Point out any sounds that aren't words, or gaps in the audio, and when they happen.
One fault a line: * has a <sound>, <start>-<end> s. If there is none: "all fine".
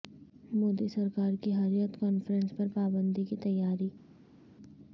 all fine